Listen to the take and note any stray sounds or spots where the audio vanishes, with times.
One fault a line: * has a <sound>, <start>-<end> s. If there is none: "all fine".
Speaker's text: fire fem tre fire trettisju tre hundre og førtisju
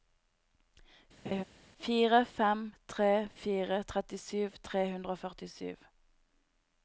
* has a laugh, 1.3-1.4 s